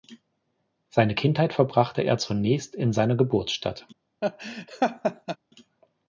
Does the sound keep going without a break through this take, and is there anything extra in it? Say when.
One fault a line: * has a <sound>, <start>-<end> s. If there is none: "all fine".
* has a laugh, 4.2-5.4 s